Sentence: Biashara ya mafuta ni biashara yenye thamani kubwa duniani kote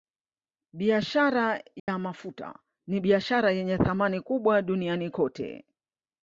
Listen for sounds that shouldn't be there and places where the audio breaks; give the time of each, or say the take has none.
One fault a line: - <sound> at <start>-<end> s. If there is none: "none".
- dropout at 1.8-1.9 s